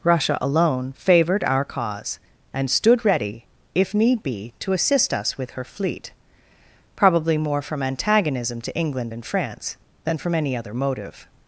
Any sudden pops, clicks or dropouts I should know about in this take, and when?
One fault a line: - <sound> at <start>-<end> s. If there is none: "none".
none